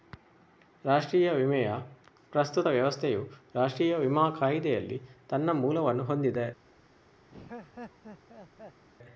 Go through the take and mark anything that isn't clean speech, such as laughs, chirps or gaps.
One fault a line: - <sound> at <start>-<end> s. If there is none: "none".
- laugh at 7.3-8.8 s